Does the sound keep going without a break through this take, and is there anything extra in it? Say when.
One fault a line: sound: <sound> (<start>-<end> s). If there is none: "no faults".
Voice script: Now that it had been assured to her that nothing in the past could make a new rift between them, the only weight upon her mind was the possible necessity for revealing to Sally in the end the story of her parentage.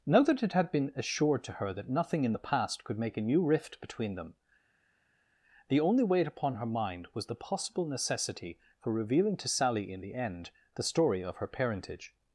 no faults